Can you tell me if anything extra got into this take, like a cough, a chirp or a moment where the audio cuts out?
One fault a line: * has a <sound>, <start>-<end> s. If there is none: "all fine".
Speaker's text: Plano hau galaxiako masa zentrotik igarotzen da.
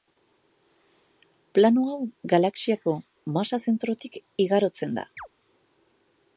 * has a chirp, 5.2-5.3 s